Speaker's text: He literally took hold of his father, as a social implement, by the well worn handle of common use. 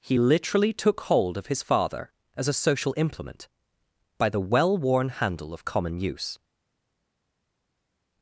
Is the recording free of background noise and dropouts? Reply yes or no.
yes